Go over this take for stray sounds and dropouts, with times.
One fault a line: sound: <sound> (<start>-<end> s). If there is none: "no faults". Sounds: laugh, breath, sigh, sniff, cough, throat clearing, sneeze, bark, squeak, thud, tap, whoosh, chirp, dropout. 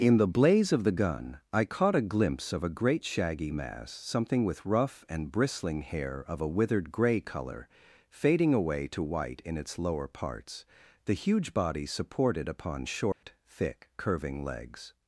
sound: dropout (13.1-13.2 s)